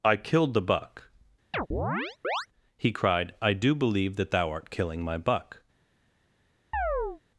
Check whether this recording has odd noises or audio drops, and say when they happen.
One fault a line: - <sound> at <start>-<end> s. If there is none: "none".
- chirp at 1.5-2.5 s
- chirp at 6.7-7.2 s